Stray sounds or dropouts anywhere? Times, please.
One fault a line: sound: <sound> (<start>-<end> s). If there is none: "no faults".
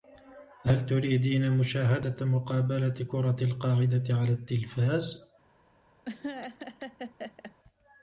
sound: laugh (6.0-7.5 s)